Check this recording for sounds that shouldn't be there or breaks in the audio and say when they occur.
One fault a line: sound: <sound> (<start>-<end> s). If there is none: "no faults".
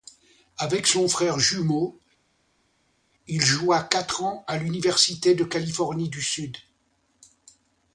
no faults